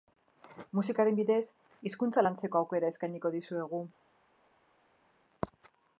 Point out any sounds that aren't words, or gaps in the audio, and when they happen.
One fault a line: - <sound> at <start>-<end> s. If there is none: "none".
none